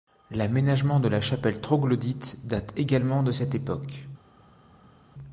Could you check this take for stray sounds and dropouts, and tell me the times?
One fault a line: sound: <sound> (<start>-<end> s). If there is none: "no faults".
no faults